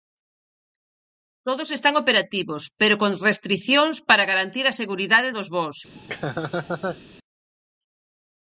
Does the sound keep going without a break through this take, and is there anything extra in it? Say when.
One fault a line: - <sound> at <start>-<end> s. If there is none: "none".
- laugh at 5.9-7.0 s